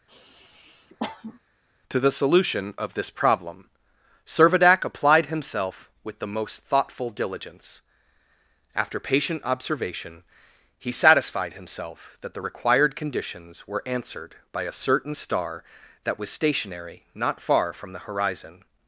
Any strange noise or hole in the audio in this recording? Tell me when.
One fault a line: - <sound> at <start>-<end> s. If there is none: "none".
- sniff at 0.1-1.4 s